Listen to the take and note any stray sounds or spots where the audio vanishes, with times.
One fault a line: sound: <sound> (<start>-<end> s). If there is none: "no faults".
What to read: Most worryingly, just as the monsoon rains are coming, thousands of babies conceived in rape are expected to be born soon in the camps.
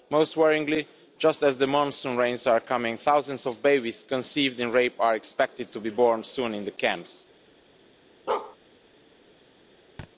sound: bark (8.3-8.6 s)
sound: thud (10.0-10.1 s)